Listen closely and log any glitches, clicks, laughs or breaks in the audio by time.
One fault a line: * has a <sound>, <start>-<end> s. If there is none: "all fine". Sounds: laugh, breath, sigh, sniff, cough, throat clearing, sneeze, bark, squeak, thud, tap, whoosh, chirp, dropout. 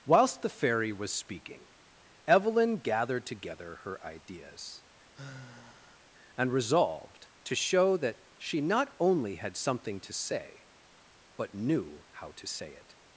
* has a sigh, 5.1-6.1 s